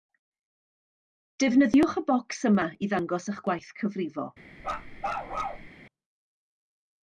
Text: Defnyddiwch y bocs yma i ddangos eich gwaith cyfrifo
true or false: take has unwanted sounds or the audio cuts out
true